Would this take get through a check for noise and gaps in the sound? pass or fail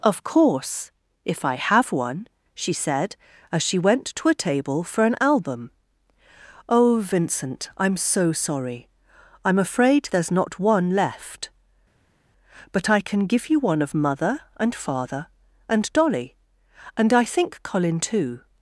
pass